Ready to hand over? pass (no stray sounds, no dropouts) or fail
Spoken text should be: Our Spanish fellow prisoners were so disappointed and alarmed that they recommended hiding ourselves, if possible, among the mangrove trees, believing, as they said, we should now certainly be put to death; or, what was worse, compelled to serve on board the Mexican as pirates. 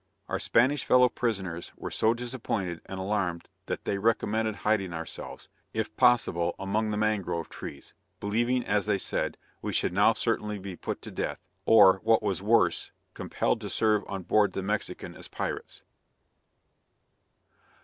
pass